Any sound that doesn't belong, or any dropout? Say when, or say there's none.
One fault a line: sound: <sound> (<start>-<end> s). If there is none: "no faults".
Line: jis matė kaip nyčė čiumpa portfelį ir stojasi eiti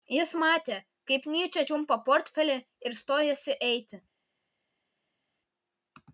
no faults